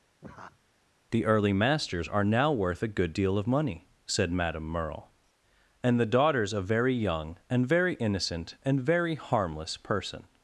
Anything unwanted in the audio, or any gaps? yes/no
yes